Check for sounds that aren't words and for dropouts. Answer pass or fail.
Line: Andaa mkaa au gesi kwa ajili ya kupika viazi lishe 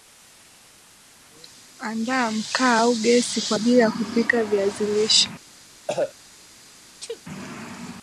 fail